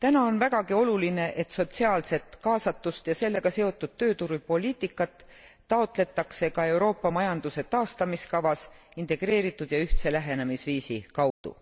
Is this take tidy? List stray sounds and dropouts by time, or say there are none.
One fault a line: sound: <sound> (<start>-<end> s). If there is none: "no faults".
sound: dropout (11.3-11.4 s)